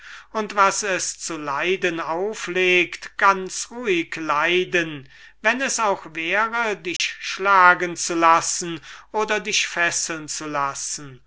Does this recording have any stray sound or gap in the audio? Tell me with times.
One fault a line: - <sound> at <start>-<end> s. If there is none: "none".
- dropout at 7.0-7.0 s